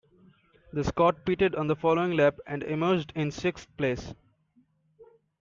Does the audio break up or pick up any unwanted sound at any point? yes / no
no